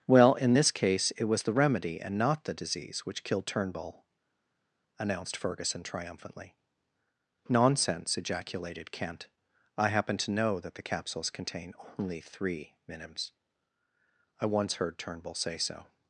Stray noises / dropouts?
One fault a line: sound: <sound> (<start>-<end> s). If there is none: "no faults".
no faults